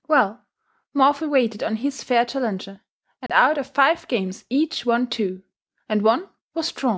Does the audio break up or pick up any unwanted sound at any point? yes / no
yes